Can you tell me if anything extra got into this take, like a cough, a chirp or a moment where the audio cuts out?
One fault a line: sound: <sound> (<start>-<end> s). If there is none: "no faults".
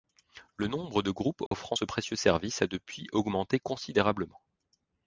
sound: dropout (1.5-1.5 s)